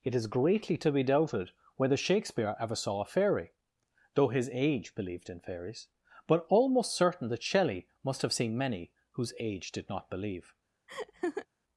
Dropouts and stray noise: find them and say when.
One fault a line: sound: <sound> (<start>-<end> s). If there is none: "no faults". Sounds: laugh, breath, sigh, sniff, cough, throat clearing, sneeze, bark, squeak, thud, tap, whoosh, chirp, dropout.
sound: laugh (10.9-11.5 s)